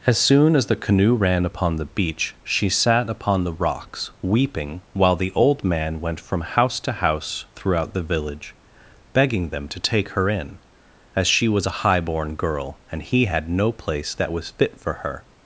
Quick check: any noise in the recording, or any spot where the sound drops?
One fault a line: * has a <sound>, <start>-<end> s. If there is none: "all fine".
all fine